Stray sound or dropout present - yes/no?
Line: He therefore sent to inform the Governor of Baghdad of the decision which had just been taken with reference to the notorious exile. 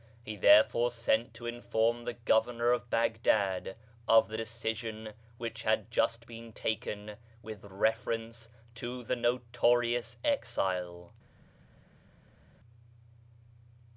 no